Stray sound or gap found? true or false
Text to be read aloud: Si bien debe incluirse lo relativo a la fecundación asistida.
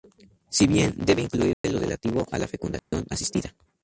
true